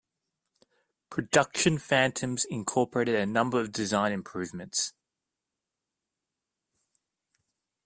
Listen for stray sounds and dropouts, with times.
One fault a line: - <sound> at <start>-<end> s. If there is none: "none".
none